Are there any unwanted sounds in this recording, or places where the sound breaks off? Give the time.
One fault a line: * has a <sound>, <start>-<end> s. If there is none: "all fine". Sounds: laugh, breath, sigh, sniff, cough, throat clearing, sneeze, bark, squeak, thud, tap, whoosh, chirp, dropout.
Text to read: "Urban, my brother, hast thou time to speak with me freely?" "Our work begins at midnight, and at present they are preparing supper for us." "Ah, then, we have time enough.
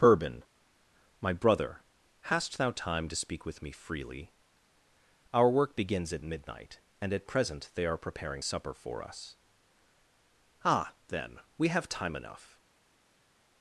all fine